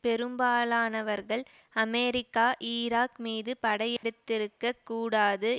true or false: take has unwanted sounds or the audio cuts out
true